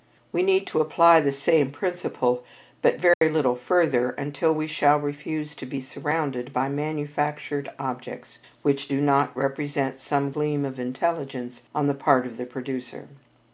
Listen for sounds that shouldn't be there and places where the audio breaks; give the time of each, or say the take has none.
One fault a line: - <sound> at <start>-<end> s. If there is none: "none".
- dropout at 3.1-3.2 s